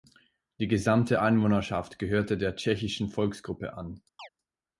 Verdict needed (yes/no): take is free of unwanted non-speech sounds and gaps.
no